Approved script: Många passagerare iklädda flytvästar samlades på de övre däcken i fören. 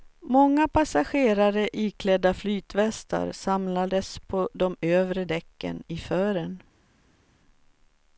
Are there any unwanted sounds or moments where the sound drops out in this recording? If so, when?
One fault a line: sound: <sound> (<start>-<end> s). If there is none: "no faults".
no faults